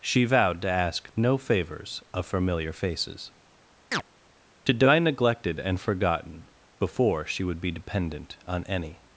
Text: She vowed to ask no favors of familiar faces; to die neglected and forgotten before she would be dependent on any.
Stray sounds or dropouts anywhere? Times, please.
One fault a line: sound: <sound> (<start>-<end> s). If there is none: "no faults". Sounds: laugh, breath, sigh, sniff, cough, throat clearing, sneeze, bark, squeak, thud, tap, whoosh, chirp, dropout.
sound: chirp (3.9-4.0 s)